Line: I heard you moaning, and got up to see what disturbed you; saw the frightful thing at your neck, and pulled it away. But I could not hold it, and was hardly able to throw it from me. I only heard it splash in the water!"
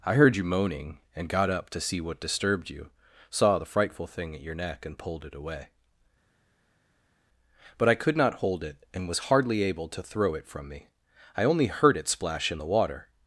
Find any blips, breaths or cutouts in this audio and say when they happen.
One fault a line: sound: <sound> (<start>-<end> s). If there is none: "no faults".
no faults